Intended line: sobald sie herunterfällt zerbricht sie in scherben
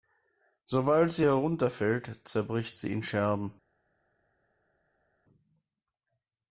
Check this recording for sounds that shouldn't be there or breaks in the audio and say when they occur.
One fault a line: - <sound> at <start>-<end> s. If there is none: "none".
none